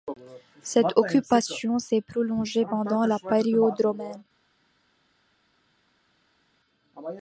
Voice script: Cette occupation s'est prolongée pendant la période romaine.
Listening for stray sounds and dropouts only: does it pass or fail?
pass